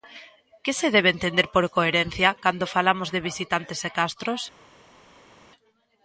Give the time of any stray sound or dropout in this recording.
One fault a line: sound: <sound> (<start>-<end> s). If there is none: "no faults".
no faults